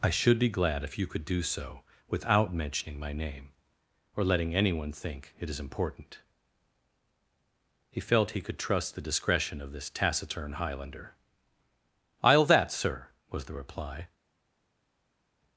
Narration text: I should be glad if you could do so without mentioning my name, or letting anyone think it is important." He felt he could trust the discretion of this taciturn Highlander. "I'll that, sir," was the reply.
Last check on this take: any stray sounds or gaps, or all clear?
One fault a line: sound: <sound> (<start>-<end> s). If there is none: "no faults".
no faults